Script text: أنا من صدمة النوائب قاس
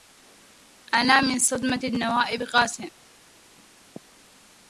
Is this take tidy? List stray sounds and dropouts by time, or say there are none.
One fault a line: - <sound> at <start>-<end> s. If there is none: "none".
none